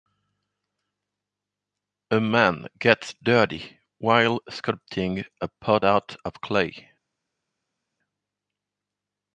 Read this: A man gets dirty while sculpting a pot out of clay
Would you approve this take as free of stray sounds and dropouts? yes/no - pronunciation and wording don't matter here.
yes